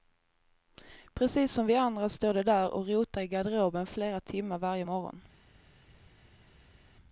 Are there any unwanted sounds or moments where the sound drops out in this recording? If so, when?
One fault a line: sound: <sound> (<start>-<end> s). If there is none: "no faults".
no faults